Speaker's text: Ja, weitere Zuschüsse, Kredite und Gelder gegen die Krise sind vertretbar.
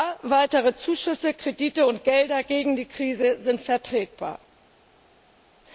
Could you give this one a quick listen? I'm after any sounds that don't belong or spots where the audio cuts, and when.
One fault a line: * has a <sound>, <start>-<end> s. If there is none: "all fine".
all fine